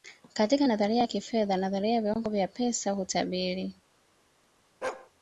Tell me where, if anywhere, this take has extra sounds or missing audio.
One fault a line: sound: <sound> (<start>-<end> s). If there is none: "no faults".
sound: bark (4.8-5.1 s)